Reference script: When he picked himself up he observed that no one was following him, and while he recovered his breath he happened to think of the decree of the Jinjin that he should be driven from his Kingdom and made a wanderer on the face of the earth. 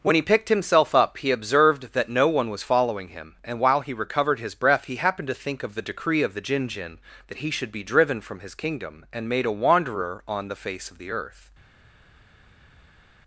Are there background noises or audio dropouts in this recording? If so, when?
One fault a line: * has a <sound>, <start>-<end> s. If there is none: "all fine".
all fine